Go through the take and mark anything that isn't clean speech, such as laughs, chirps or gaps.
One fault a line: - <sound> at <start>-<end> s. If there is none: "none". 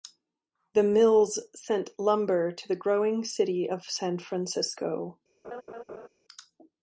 - laugh at 5.4-6.1 s